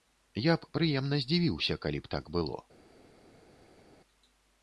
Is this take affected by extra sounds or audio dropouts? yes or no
no